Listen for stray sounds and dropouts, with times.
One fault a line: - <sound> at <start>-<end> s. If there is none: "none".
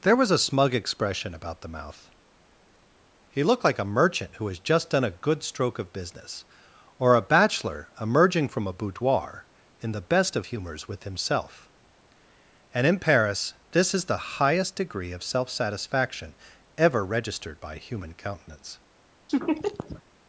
- laugh at 19.3-20.0 s